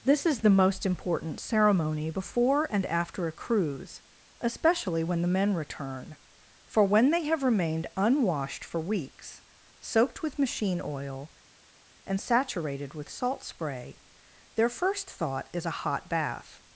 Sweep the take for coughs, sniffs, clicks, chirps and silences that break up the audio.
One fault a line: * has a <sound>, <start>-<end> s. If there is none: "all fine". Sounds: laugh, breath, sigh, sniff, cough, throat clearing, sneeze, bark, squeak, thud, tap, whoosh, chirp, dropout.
all fine